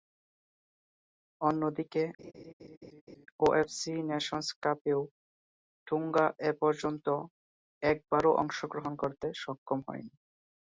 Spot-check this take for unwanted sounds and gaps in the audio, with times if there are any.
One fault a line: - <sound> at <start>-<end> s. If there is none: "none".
- laugh at 2.2-3.3 s